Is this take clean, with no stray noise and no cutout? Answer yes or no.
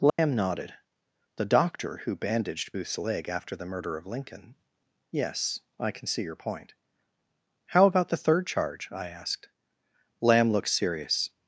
no